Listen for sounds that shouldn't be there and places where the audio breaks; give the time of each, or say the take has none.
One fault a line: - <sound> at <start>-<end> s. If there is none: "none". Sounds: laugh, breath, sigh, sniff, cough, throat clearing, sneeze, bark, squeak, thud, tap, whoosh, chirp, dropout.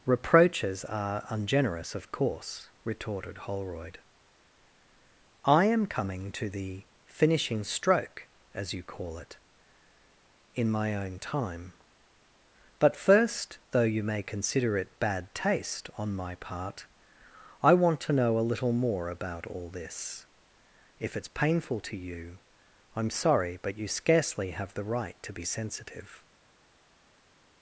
none